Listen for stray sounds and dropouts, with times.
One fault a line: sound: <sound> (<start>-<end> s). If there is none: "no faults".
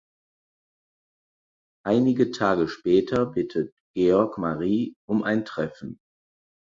no faults